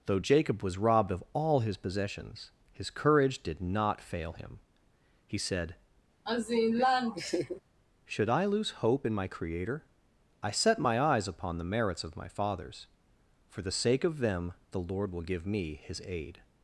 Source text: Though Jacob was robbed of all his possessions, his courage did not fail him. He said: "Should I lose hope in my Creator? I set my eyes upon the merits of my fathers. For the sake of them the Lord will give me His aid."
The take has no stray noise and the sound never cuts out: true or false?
false